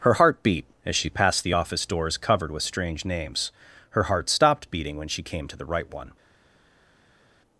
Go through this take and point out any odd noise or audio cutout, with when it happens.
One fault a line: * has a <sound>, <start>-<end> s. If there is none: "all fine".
all fine